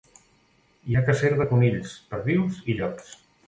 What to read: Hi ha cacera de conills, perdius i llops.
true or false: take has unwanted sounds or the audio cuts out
false